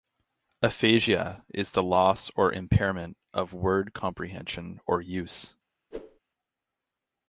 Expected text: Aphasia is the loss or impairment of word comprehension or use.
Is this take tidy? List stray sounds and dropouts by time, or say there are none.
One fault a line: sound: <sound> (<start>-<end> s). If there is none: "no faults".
sound: whoosh (5.9-6.2 s)